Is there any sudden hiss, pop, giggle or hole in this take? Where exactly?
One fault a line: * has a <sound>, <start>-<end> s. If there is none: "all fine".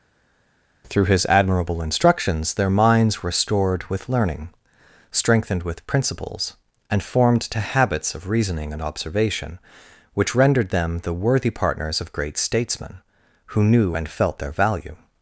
all fine